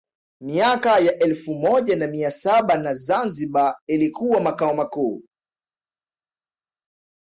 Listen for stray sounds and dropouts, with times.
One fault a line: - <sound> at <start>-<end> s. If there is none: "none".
none